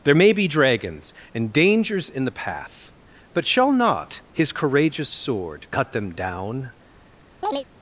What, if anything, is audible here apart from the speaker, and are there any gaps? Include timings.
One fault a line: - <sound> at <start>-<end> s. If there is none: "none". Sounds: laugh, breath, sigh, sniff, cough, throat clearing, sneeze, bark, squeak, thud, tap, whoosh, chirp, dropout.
- chirp at 7.4-7.7 s